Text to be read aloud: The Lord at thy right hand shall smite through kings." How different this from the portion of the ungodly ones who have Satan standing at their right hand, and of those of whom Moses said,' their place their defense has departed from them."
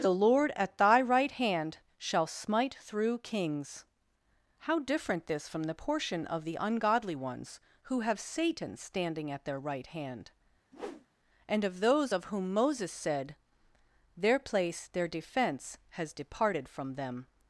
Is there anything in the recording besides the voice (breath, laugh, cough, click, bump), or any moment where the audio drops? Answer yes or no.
yes